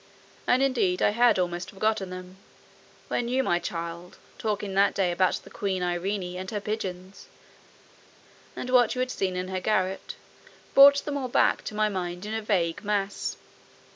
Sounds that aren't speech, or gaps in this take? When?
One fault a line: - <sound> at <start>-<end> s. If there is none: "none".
none